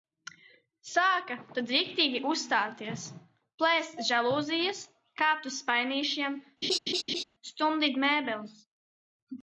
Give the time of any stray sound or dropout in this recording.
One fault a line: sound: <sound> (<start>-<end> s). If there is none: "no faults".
sound: laugh (6.6-7.2 s)